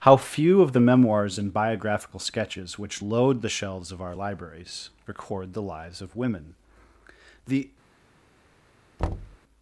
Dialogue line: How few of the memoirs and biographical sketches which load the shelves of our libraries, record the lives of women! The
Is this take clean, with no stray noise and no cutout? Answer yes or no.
no